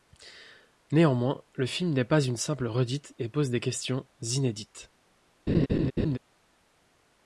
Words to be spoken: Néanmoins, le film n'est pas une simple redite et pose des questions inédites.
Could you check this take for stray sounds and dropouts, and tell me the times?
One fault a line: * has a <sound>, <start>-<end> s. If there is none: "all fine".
* has a laugh, 5.5-6.2 s